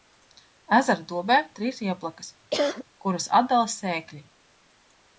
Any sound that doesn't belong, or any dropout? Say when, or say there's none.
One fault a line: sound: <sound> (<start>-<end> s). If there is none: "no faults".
sound: cough (2.5-2.8 s)